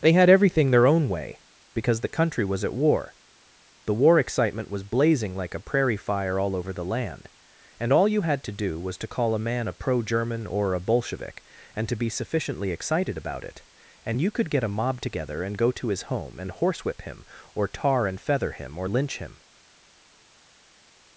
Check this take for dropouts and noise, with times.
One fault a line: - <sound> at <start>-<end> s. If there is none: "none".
none